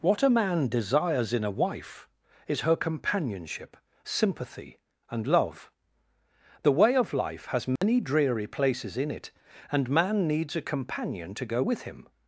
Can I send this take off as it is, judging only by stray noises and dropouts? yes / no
no